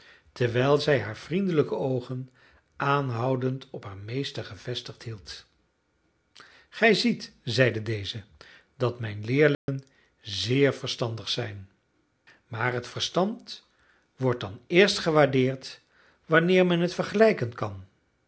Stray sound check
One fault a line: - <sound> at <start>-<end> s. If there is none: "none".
- dropout at 9.5-9.7 s